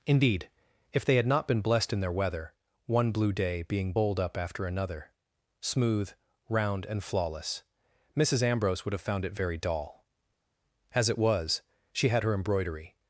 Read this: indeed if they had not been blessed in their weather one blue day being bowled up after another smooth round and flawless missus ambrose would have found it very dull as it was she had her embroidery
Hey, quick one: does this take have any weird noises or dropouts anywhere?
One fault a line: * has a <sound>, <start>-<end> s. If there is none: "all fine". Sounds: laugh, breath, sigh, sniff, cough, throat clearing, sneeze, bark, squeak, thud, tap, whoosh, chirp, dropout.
all fine